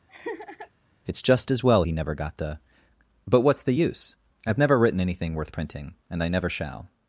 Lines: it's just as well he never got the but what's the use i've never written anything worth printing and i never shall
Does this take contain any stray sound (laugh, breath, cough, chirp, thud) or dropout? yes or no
yes